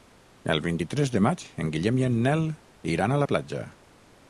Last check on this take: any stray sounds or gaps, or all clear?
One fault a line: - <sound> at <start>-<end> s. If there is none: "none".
none